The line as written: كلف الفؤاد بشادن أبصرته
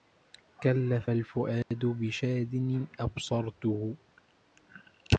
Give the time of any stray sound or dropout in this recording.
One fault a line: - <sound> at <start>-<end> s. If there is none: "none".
- dropout at 1.6-1.7 s